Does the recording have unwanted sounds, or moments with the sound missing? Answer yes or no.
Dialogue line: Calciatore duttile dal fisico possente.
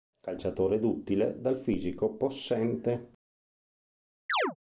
yes